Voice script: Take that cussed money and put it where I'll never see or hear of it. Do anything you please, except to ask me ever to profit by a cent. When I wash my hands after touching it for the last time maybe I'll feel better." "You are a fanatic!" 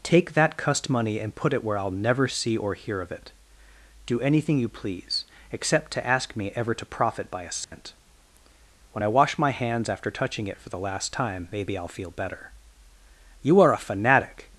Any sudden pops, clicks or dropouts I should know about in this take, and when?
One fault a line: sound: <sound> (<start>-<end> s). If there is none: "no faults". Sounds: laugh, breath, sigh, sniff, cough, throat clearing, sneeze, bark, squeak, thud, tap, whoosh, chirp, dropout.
sound: dropout (7.6-7.7 s)